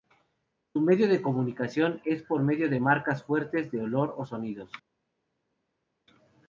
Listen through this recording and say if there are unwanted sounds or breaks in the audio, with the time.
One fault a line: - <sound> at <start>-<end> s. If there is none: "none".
none